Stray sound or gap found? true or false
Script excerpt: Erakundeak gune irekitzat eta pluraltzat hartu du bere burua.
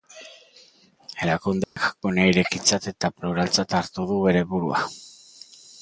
true